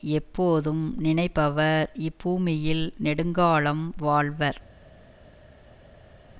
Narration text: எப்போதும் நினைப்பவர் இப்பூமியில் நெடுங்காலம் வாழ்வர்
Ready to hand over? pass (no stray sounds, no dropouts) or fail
pass